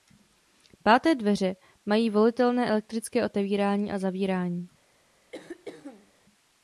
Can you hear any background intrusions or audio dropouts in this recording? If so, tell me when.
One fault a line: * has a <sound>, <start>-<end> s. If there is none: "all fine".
* has a throat clearing, 5.3-6.1 s